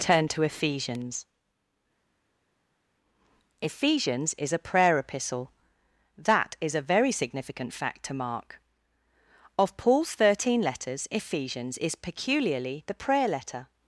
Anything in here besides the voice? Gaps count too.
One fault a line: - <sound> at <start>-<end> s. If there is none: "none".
none